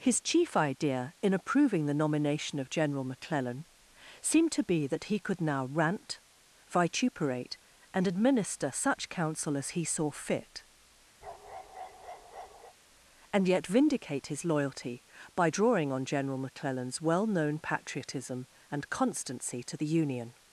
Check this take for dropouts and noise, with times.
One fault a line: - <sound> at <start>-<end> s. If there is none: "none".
- bark at 11.2-12.7 s